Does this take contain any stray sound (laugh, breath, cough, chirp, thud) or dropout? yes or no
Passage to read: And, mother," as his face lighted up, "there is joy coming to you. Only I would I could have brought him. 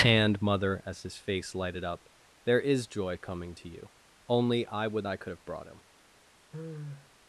yes